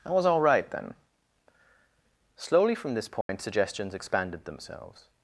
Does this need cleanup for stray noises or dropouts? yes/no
yes